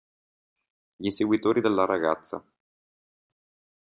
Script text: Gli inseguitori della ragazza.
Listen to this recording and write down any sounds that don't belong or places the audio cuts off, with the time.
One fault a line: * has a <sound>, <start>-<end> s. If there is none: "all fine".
all fine